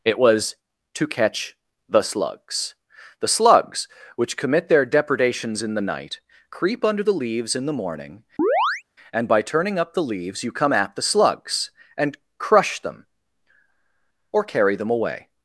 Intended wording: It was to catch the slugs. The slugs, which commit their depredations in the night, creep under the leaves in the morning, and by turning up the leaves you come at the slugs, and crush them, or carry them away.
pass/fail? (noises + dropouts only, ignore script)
fail